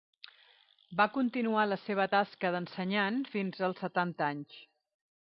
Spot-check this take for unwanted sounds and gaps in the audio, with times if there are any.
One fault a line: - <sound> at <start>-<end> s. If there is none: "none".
none